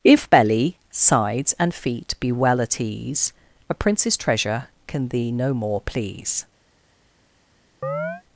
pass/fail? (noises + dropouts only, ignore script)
fail